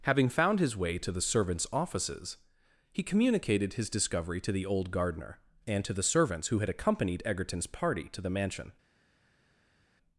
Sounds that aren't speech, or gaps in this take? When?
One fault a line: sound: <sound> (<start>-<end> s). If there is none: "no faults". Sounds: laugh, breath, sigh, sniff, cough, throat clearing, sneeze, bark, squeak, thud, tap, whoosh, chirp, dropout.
no faults